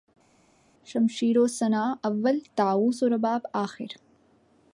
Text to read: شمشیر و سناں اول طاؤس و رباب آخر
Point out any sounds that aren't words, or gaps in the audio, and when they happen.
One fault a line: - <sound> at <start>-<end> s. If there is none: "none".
none